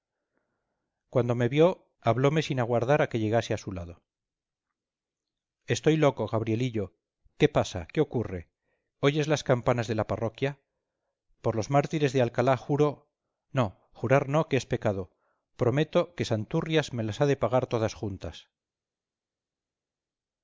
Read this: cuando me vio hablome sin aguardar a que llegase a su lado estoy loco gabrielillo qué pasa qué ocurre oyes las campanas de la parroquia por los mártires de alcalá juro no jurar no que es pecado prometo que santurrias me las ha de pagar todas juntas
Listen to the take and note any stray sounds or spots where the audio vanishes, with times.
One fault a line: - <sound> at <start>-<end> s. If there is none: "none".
none